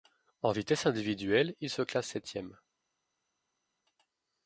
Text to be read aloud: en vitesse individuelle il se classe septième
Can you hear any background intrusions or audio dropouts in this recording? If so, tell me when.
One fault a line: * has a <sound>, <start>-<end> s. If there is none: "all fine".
all fine